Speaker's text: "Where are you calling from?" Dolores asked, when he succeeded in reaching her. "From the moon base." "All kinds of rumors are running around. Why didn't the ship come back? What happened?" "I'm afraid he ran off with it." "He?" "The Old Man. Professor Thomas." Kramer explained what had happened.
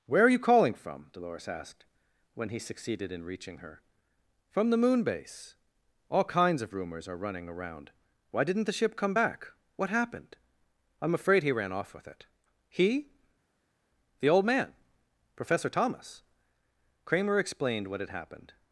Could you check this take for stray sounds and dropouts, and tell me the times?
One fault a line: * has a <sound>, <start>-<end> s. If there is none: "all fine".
all fine